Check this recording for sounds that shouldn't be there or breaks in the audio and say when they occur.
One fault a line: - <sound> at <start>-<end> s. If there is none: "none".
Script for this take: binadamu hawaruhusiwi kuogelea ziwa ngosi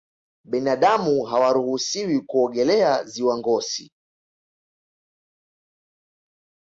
none